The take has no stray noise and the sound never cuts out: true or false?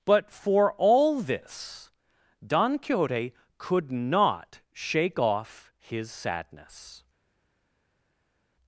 true